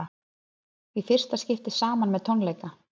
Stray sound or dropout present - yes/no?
no